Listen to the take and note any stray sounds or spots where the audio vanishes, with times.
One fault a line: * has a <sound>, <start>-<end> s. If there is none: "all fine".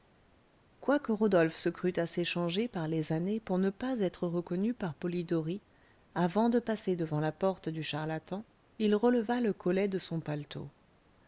all fine